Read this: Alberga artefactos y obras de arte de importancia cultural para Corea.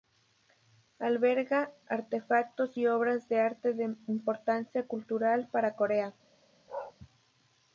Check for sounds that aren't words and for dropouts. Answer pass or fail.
fail